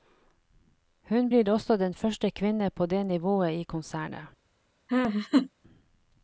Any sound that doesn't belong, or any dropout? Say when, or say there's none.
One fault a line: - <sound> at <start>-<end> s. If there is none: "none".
- laugh at 4.9-5.5 s